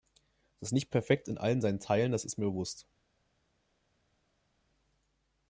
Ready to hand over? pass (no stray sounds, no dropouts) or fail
pass